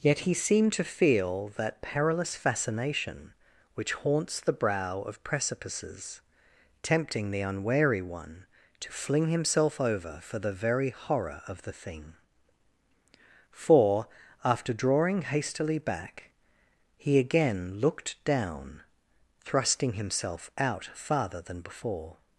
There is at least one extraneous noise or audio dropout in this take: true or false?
false